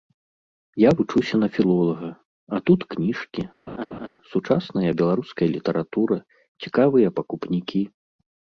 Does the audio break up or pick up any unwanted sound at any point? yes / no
yes